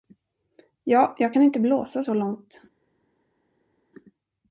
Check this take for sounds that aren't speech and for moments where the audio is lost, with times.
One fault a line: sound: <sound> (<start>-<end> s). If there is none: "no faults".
no faults